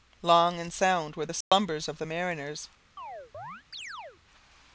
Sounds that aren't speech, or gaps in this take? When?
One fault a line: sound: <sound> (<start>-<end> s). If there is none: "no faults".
sound: dropout (1.4-1.5 s)
sound: chirp (3.0-4.2 s)